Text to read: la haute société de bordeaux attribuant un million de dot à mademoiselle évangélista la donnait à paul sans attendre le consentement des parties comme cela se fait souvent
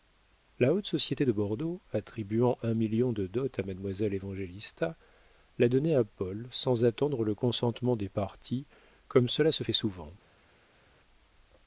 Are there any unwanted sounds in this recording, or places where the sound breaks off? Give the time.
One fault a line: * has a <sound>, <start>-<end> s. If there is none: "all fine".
all fine